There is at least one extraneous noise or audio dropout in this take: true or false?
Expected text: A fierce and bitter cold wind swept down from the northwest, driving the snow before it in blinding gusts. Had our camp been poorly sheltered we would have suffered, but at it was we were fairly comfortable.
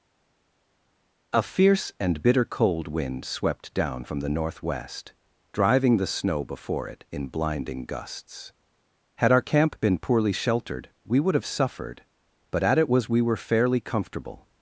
false